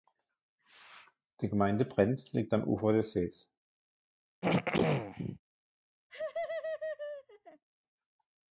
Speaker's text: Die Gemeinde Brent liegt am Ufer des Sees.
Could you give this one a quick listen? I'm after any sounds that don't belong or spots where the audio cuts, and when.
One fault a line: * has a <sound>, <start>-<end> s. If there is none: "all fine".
* has a throat clearing, 4.4-5.4 s
* has a laugh, 6.1-7.6 s